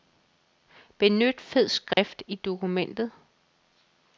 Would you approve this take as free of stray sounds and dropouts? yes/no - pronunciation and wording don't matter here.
no